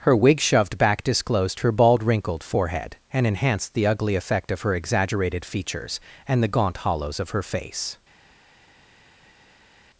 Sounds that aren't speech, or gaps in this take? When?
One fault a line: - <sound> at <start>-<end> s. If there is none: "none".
none